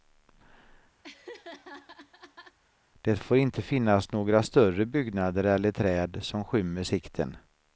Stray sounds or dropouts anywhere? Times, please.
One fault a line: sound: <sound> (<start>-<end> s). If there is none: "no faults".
sound: laugh (1.0-2.6 s)